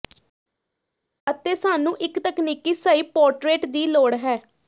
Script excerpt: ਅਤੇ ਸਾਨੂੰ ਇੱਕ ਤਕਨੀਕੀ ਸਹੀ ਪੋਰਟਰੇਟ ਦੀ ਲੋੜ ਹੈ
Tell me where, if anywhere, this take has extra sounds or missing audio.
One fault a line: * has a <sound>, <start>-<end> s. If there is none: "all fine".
all fine